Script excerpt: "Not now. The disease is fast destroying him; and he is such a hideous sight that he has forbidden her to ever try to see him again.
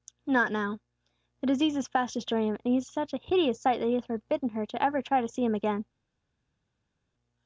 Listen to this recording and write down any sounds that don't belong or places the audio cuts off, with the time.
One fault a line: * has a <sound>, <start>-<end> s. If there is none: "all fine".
all fine